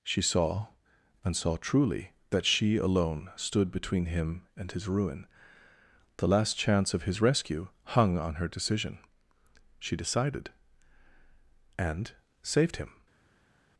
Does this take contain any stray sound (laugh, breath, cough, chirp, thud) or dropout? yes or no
no